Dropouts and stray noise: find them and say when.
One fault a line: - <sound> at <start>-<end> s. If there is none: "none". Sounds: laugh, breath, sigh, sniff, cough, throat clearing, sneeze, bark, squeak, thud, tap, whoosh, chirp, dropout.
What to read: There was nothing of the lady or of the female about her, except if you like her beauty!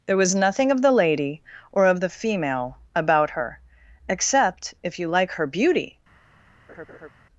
- laugh at 6.7-7.1 s